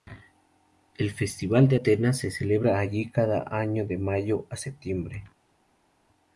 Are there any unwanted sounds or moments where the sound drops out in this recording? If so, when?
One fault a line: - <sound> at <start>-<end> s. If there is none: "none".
none